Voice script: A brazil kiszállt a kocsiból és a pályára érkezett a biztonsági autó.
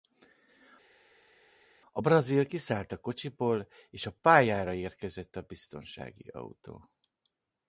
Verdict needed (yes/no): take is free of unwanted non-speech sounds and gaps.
yes